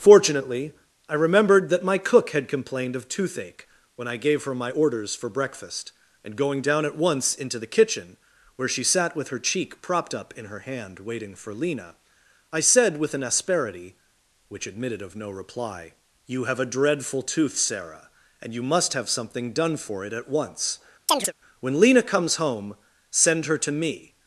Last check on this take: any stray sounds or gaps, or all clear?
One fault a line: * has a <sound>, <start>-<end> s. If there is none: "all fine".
* has a chirp, 21.1-21.3 s